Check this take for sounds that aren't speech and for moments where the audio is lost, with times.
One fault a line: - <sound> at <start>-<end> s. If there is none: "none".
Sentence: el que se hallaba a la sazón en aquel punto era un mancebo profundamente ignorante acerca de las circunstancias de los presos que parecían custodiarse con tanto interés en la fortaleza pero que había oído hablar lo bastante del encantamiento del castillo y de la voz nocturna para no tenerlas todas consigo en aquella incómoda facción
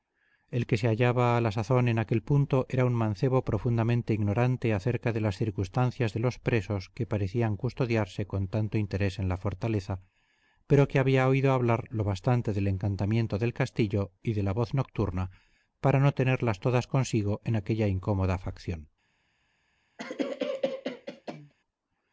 - cough at 20.0-21.5 s